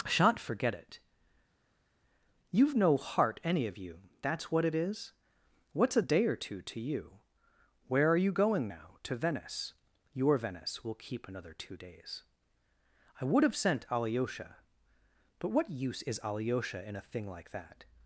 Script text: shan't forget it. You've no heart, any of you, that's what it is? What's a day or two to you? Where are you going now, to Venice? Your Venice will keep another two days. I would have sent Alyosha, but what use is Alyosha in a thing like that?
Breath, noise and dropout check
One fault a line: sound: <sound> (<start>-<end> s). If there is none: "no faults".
no faults